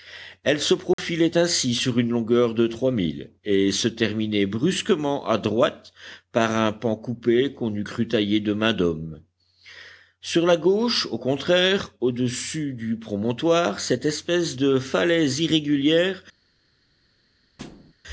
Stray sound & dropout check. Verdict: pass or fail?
fail